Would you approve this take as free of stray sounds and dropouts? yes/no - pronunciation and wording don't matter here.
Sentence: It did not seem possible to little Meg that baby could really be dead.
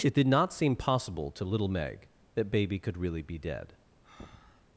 no